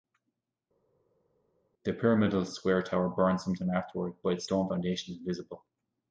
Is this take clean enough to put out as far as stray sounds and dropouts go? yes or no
yes